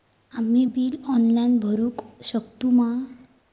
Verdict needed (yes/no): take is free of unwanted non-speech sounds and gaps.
yes